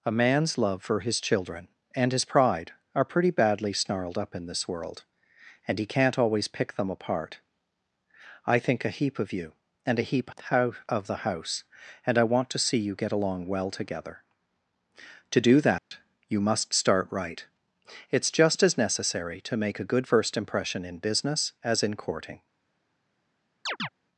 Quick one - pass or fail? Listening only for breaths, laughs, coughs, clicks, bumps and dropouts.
fail